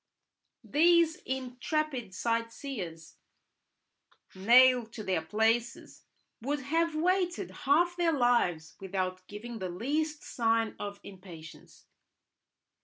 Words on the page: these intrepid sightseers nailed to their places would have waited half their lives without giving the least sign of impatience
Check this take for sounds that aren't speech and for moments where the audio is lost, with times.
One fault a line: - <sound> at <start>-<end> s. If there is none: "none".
none